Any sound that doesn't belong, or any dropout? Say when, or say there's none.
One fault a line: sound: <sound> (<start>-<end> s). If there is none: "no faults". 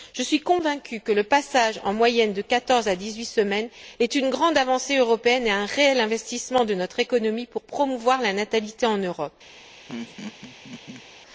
sound: laugh (9.9-11.0 s)